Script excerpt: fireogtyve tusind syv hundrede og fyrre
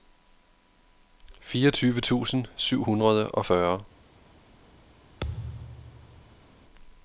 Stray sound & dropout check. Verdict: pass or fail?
fail